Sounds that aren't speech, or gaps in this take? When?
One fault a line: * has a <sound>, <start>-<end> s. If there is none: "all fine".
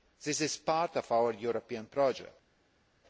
all fine